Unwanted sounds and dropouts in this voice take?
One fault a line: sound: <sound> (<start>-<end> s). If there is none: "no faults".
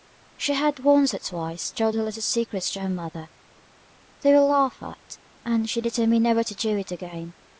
no faults